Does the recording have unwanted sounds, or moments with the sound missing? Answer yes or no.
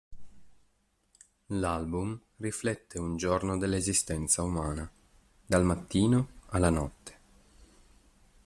no